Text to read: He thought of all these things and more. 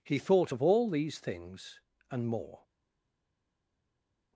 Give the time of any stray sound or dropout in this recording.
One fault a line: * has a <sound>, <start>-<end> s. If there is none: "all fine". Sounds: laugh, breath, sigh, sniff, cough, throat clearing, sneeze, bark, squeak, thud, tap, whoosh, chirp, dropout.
all fine